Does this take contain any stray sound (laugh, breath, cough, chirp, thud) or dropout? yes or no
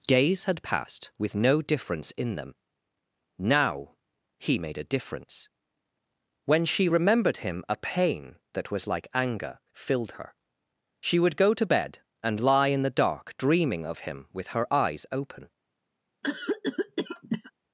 yes